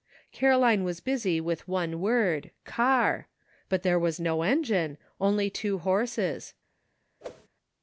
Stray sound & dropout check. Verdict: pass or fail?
fail